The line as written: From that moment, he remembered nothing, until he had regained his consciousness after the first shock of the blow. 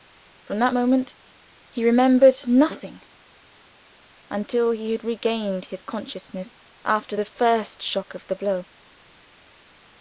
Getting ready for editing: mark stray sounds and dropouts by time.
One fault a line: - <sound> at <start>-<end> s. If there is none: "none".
none